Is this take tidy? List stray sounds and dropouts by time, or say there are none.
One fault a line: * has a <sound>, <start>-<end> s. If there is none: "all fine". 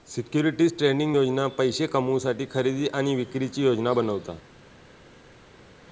all fine